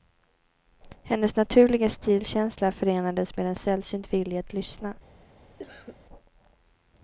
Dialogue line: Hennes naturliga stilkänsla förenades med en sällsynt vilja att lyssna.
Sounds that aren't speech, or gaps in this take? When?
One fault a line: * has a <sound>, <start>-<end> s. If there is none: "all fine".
* has a cough, 5.6-6.0 s